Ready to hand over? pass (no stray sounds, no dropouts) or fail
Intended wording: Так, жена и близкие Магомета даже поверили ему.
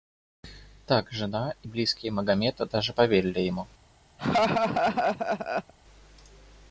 fail